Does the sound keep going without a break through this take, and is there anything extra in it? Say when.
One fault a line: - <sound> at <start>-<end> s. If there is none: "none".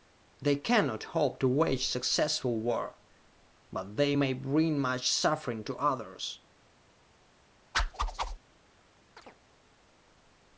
- whoosh at 7.7-8.4 s
- chirp at 9.2-9.4 s